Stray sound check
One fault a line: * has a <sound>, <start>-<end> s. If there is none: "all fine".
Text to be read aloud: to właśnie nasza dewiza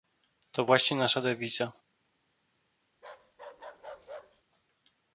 * has a bark, 2.9-4.4 s